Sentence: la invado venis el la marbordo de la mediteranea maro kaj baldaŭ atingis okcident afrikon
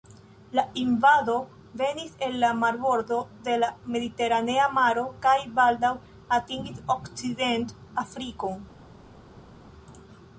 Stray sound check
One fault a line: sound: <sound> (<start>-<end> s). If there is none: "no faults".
no faults